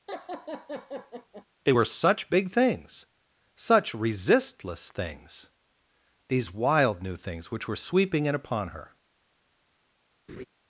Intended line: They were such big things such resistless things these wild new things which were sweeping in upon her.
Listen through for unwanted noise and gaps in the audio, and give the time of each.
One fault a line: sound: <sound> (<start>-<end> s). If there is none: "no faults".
sound: laugh (0.1-1.5 s)
sound: laugh (10.3-10.5 s)